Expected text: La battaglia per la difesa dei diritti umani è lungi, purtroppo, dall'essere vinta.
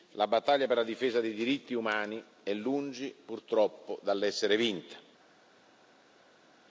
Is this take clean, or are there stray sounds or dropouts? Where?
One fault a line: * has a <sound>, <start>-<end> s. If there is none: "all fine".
all fine